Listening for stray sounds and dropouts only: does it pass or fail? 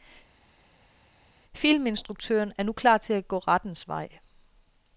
pass